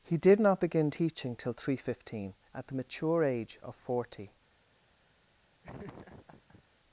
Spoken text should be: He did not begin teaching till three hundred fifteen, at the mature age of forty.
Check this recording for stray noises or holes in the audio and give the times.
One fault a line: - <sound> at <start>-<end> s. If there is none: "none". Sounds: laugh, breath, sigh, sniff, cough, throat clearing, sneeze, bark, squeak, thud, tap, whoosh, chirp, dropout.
- laugh at 5.6-6.6 s